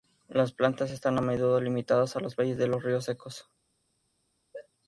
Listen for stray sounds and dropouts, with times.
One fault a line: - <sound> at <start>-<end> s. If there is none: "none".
- sneeze at 4.5-4.7 s